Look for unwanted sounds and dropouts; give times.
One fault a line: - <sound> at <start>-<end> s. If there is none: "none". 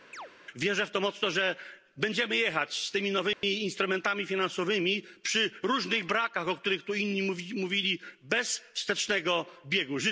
- chirp at 0.1-0.3 s
- dropout at 3.3-3.4 s